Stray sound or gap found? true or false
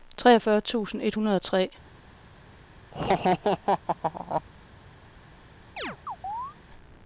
true